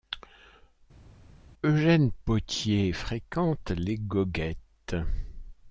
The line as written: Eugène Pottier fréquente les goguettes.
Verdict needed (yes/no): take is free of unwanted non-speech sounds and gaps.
yes